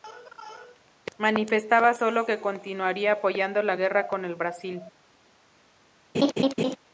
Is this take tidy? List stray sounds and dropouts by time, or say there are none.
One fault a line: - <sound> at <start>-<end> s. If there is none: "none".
- laugh at 6.1-6.8 s